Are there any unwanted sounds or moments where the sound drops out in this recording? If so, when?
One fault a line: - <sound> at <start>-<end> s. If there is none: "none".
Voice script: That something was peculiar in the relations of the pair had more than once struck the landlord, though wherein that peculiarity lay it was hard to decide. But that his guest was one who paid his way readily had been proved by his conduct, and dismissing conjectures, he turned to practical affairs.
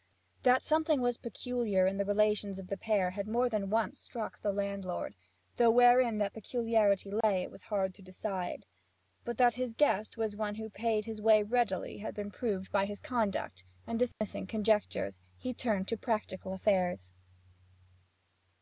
- dropout at 7.2-7.2 s
- dropout at 14.1-14.2 s